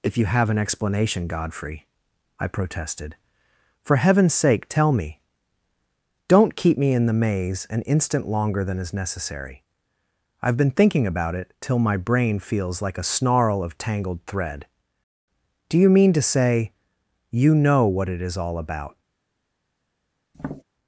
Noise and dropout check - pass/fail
fail